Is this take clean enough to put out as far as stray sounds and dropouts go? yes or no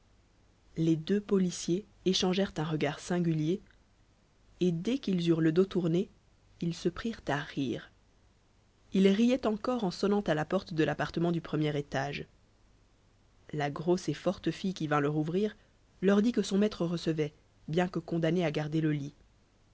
yes